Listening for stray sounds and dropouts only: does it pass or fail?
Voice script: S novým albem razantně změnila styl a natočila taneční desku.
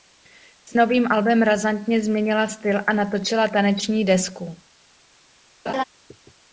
fail